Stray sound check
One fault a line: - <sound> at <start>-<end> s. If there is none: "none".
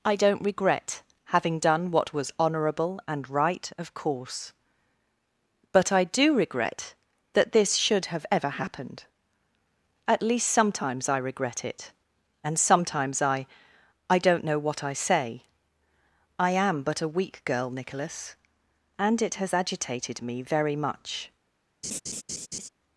- laugh at 21.8-22.7 s